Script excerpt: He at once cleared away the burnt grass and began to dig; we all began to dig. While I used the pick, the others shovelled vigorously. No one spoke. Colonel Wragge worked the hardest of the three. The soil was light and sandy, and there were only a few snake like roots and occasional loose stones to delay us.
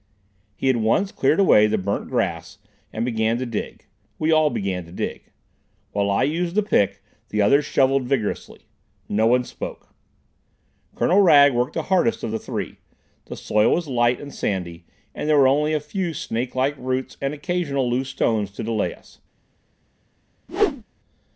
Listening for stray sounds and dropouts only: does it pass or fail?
fail